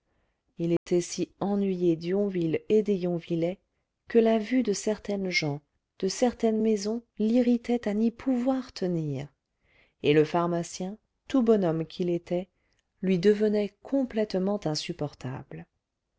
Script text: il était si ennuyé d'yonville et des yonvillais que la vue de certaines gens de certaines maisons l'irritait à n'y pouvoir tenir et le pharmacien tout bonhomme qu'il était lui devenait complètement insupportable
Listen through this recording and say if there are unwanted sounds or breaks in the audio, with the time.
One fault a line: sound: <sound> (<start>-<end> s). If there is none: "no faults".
sound: dropout (0.8-0.9 s)